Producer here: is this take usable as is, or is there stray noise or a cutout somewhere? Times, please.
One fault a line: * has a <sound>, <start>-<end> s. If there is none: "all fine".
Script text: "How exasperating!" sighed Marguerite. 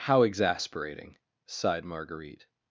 all fine